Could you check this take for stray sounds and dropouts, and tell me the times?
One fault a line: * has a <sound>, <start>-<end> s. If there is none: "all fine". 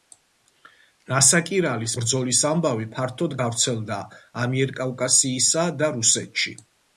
all fine